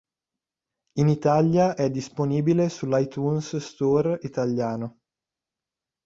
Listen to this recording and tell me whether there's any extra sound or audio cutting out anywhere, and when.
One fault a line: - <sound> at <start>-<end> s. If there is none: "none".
none